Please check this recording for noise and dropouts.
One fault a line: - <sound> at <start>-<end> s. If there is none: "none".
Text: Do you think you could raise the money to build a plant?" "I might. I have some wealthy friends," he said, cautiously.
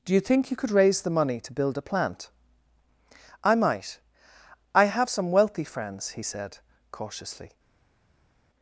none